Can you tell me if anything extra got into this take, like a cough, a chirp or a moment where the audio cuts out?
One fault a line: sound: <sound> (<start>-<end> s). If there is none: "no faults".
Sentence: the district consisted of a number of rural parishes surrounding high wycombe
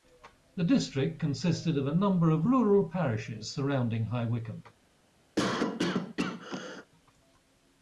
sound: cough (5.4-6.9 s)